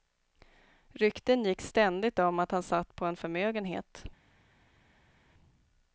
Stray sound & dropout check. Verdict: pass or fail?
pass